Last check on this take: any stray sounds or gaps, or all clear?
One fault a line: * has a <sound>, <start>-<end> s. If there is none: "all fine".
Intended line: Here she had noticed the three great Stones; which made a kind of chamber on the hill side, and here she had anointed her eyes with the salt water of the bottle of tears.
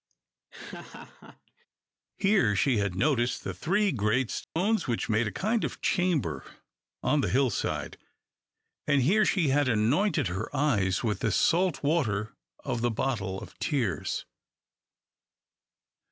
* has a laugh, 0.5-1.7 s
* has a dropout, 4.4-4.6 s